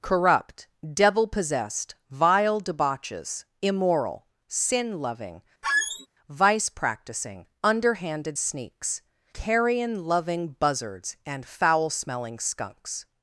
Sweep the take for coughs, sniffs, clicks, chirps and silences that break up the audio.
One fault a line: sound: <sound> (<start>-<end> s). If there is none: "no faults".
sound: squeak (5.6-6.1 s)